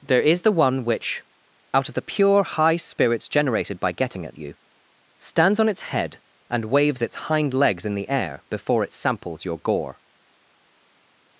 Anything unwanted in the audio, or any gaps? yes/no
no